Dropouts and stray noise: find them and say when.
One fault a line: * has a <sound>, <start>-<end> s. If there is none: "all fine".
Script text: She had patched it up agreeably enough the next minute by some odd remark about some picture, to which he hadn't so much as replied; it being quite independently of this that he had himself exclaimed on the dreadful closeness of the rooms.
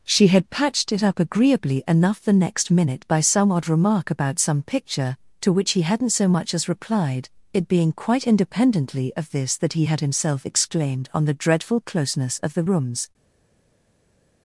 all fine